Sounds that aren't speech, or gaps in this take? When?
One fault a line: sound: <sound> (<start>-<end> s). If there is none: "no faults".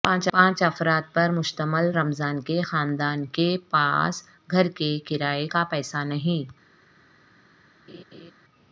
sound: laugh (7.9-8.3 s)